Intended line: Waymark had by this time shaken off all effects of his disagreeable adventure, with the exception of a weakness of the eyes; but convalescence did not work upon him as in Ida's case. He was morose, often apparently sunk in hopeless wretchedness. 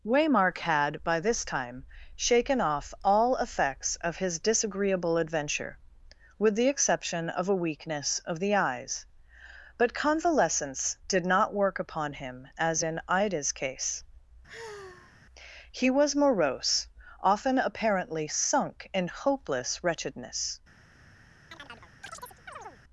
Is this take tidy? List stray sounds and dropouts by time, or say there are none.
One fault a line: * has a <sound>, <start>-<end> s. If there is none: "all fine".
* has a sigh, 14.5-15.2 s
* has a chirp, 21.5-22.8 s